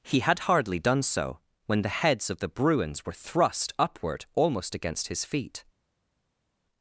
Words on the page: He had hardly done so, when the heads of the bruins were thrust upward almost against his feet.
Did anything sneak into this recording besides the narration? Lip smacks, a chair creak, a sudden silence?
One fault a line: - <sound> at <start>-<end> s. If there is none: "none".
none